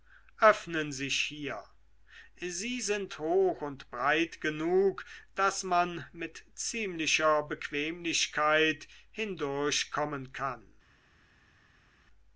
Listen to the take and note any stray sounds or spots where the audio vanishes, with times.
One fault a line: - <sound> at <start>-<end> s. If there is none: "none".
none